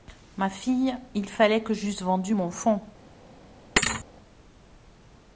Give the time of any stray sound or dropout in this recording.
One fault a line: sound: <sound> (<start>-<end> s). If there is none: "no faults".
sound: thud (3.8-4.0 s)